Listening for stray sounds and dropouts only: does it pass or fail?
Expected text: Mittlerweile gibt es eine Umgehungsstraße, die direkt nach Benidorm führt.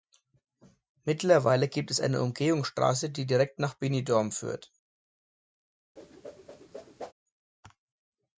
fail